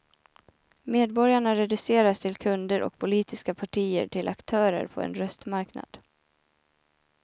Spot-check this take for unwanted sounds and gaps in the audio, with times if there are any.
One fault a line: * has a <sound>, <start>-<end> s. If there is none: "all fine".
all fine